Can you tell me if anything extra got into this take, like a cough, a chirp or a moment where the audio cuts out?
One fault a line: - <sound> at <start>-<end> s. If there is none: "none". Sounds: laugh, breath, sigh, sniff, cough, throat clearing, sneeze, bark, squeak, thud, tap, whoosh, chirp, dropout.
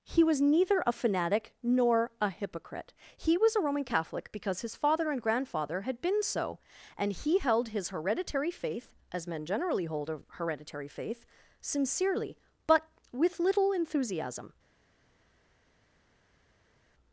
none